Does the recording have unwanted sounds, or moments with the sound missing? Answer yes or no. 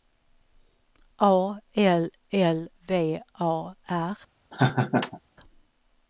yes